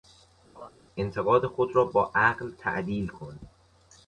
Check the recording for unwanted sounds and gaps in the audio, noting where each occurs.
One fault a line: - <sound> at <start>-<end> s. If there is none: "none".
- laugh at 0.5-0.7 s